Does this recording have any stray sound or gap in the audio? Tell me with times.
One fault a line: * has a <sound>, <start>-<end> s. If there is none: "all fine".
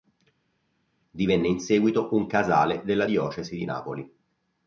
all fine